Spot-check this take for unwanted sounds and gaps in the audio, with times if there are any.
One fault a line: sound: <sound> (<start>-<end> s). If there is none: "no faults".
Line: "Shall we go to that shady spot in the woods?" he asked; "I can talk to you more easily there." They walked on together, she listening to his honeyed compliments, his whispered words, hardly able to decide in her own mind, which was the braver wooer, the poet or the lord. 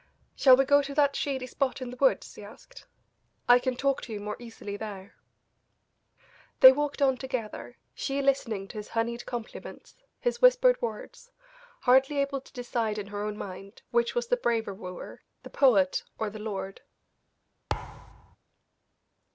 sound: thud (17.7-18.4 s)